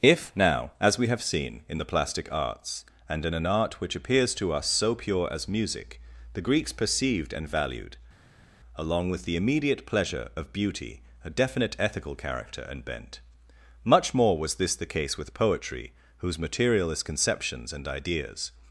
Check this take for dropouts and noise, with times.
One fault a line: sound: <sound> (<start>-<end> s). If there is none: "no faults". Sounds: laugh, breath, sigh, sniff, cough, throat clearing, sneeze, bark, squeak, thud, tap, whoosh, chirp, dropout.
no faults